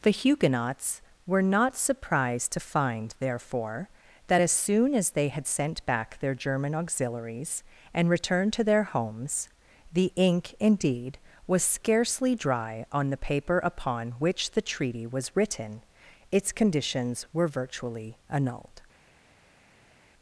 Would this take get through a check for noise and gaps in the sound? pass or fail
pass